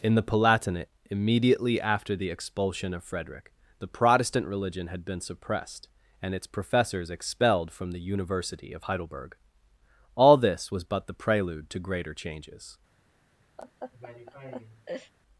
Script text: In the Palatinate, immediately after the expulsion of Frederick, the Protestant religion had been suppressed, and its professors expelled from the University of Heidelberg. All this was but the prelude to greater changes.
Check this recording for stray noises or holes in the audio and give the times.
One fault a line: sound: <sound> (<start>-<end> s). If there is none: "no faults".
sound: laugh (13.6-15.1 s)